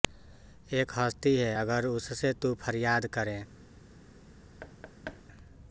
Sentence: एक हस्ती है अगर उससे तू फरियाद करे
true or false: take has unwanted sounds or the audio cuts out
true